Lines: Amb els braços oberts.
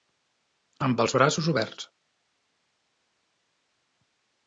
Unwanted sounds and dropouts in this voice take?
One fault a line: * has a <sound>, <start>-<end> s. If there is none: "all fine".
all fine